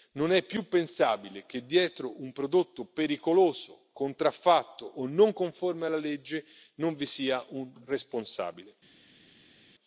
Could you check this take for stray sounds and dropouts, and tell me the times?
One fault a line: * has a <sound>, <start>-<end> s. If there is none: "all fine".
all fine